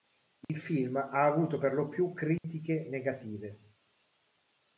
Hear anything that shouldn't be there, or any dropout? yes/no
yes